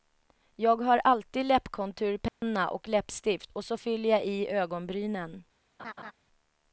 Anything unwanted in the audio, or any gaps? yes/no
yes